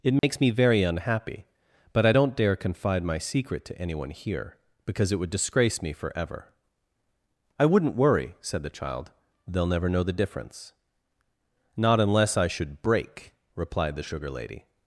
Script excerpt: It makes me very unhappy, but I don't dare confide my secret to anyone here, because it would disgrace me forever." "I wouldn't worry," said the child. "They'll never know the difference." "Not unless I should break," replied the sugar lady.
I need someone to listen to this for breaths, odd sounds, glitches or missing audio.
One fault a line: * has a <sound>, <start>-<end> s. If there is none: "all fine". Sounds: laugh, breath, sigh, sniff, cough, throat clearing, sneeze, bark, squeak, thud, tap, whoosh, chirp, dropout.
* has a dropout, 0.2-0.2 s